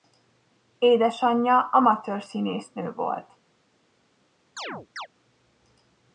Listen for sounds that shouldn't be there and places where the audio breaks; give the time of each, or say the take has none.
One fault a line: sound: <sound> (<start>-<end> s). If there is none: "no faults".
sound: chirp (4.6-5.1 s)